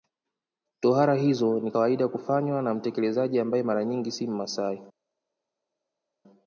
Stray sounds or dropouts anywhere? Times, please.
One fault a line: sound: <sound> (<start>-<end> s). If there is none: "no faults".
no faults